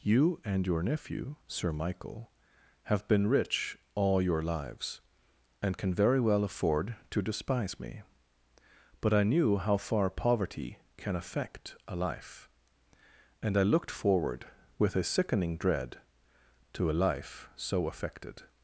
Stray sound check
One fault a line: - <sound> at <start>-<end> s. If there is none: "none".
none